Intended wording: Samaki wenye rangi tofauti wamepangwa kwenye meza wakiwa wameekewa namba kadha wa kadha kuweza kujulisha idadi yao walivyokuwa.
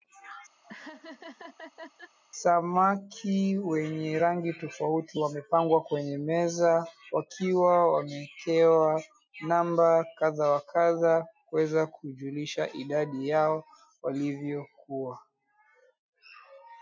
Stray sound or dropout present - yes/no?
yes